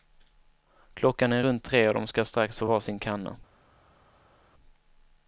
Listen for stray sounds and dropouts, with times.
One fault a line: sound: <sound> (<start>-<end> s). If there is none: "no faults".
no faults